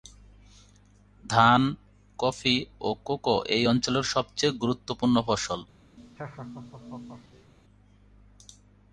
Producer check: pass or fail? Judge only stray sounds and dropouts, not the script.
fail